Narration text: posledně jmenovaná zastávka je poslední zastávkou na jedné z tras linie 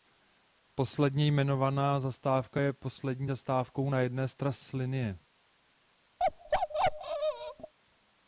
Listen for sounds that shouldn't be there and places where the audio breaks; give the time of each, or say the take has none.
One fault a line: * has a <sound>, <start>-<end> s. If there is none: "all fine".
* has a bark, 6.2-7.7 s